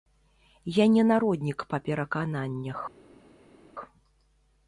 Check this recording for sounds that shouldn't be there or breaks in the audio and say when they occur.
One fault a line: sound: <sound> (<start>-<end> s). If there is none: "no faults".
no faults